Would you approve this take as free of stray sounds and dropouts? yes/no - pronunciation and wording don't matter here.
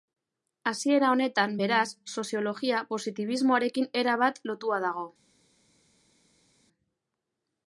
yes